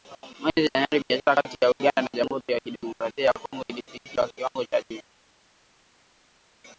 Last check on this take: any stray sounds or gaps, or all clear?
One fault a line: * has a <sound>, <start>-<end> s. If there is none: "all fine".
all fine